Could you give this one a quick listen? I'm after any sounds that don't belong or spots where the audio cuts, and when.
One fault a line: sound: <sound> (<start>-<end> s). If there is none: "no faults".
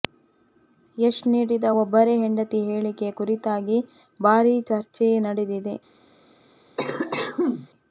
sound: cough (6.8-7.7 s)